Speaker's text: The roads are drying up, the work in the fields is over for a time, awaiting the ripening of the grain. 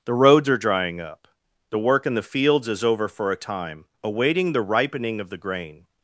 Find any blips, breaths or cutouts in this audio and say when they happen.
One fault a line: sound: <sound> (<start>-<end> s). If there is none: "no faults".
no faults